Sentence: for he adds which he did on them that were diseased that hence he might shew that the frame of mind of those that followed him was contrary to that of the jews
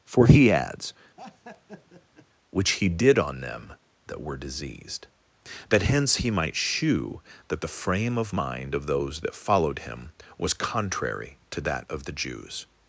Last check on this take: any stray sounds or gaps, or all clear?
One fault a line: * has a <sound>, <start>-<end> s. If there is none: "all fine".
* has a laugh, 1.2-2.3 s